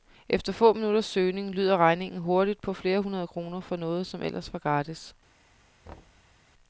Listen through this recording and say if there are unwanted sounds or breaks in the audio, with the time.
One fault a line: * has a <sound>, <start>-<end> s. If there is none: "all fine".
* has a thud, 5.9-6.3 s